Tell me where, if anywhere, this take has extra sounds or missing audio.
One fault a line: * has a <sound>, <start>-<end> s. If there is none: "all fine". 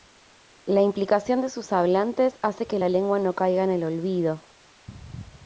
all fine